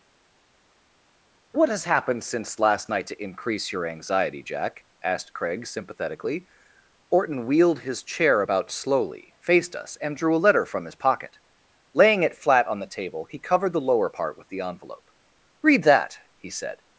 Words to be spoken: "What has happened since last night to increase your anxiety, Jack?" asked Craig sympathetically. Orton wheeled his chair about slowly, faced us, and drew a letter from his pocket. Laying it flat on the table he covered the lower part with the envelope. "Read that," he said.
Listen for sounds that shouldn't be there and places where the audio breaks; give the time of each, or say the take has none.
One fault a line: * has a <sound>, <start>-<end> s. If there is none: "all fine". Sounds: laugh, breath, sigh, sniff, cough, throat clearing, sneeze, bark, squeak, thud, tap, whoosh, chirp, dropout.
all fine